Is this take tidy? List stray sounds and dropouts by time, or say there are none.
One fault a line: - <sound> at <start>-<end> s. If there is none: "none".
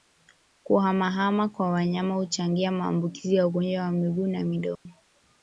- dropout at 4.7-4.9 s